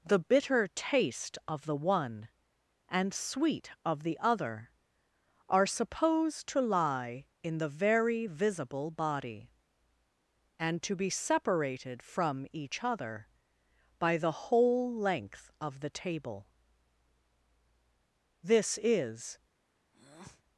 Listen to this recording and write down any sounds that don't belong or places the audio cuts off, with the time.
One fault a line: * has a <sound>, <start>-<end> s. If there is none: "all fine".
* has a breath, 19.9-20.4 s